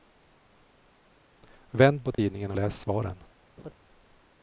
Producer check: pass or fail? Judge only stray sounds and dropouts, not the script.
fail